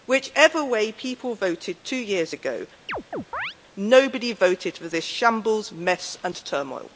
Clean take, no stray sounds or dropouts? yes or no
no